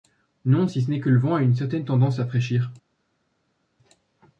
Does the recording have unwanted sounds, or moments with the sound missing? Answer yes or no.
no